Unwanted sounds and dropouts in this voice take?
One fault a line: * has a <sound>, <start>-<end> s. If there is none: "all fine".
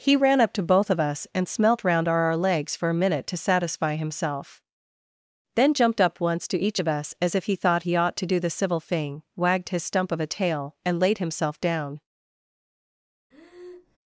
* has a breath, 13.3-14.0 s